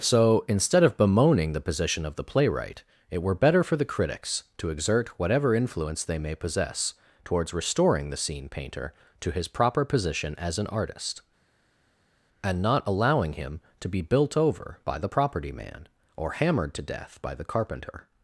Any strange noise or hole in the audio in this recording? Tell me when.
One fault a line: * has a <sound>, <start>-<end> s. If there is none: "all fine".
all fine